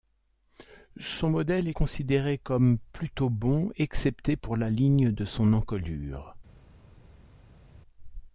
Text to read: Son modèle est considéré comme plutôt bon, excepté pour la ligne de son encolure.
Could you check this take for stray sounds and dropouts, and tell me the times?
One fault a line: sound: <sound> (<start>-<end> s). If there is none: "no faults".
no faults